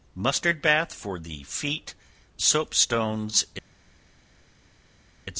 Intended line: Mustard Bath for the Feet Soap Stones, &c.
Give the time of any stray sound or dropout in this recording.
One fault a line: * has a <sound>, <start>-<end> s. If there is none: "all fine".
all fine